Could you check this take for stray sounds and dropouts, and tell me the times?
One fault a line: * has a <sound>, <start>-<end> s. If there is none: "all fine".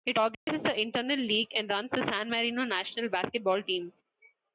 * has a dropout, 0.3-0.5 s